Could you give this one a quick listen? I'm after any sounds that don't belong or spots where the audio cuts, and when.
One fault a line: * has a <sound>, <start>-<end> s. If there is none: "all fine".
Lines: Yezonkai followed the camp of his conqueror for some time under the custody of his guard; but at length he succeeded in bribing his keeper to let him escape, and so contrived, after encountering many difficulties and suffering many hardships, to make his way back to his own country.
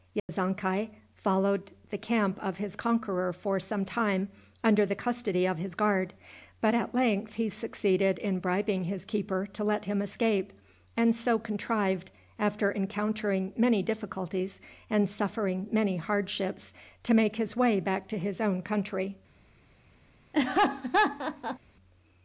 * has a dropout, 0.2-0.3 s
* has a laugh, 20.3-21.6 s